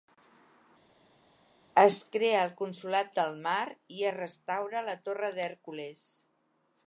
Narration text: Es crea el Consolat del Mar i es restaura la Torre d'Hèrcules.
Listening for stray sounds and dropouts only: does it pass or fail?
pass